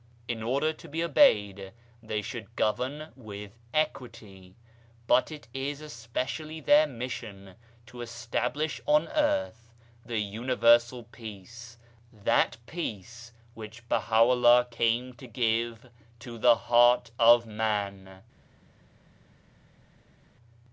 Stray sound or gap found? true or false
false